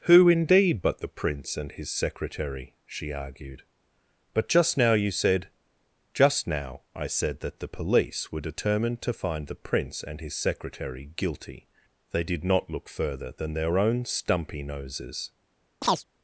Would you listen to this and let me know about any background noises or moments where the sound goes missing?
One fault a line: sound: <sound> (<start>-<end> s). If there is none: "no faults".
sound: chirp (15.8-16.0 s)